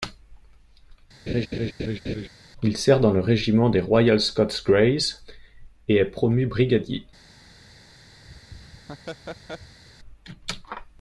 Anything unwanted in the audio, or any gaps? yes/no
yes